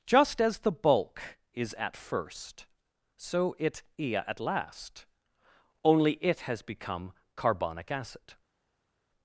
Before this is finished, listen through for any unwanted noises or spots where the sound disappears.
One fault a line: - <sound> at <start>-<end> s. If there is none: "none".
none